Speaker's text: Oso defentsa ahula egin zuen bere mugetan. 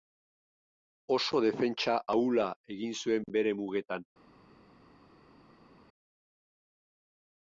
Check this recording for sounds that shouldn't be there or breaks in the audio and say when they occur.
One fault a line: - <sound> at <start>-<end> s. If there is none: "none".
none